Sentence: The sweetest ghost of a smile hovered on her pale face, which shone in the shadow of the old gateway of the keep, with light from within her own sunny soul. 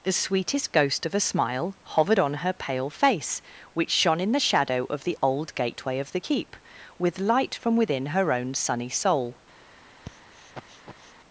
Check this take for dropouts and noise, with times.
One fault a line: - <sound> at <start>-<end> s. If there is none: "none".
- sniff at 10.0-11.1 s